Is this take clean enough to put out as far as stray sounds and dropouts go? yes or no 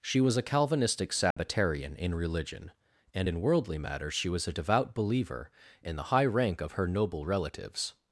no